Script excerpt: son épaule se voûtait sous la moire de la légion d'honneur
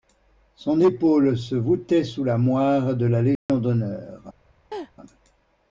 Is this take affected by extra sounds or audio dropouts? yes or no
yes